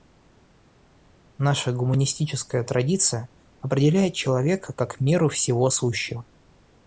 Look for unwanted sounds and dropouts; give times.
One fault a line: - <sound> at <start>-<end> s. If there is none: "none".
none